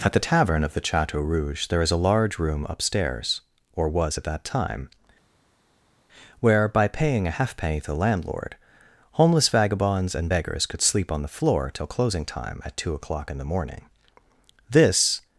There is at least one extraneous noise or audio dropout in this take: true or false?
false